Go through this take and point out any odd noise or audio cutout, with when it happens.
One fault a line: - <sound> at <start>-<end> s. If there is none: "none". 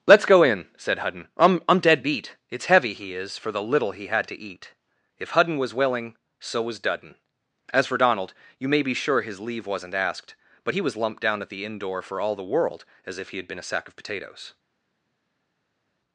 none